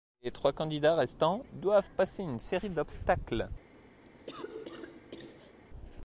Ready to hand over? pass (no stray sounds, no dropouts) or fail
fail